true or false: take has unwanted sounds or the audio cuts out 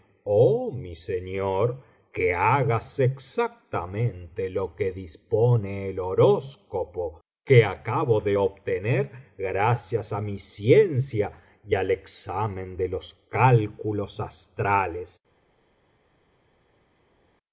false